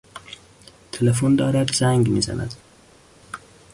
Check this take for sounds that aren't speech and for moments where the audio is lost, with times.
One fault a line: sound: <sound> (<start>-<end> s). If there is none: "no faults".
no faults